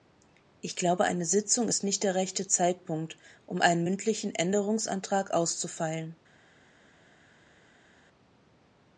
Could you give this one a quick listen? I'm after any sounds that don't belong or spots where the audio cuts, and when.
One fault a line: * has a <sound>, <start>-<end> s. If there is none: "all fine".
all fine